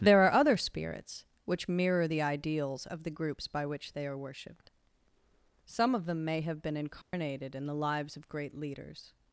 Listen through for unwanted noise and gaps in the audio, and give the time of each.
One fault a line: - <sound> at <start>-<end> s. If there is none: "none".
- dropout at 7.0-7.1 s